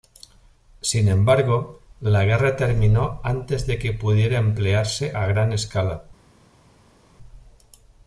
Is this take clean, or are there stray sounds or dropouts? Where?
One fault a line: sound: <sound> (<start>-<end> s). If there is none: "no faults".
no faults